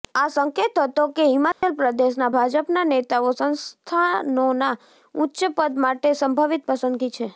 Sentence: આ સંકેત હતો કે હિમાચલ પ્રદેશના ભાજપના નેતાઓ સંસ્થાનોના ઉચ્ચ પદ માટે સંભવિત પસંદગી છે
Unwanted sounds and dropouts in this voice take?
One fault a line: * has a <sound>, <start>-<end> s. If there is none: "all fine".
* has a dropout, 1.5-1.6 s